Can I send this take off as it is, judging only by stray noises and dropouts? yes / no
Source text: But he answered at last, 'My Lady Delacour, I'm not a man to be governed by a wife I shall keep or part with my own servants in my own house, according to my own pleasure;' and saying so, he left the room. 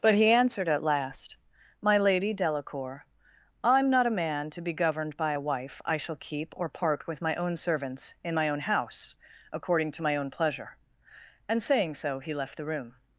yes